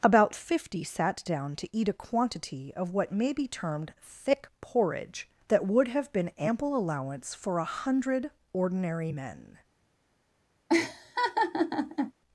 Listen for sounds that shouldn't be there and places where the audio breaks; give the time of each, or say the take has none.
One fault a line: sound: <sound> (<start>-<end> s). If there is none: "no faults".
sound: laugh (10.7-12.1 s)